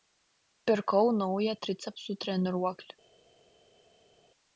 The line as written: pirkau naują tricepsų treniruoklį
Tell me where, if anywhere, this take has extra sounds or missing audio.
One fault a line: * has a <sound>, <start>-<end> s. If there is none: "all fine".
all fine